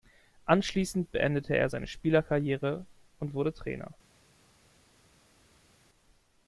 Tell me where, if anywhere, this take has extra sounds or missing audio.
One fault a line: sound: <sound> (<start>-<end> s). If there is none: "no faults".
no faults